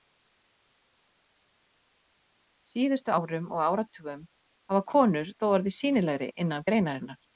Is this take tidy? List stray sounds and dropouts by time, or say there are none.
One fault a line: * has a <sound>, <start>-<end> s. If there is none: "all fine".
all fine